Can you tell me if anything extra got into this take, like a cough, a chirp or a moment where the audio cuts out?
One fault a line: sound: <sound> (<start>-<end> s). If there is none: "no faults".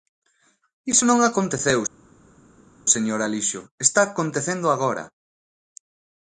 no faults